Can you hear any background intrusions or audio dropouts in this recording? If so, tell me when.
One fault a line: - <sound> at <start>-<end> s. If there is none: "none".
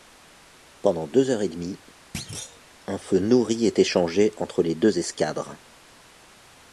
- thud at 2.1-2.6 s